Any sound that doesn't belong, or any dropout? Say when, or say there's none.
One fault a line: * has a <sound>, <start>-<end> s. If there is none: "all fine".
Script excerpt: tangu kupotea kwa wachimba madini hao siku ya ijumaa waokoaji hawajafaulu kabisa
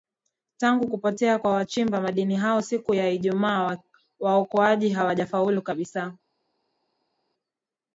all fine